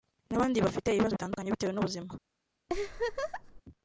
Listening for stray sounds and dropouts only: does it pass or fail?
fail